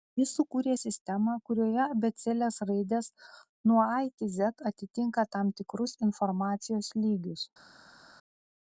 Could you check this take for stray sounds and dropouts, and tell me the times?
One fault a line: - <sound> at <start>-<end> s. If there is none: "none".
none